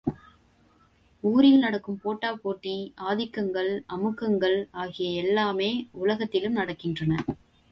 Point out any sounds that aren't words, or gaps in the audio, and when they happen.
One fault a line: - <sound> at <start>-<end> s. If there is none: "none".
none